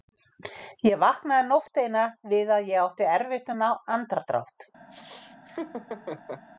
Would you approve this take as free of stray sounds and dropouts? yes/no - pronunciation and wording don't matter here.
no